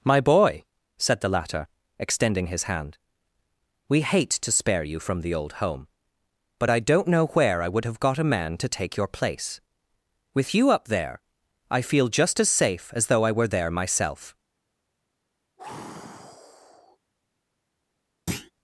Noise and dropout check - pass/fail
fail